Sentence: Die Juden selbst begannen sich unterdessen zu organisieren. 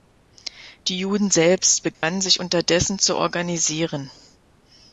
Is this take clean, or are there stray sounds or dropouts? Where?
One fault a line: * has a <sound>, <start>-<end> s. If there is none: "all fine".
* has a dropout, 1.9-2.0 s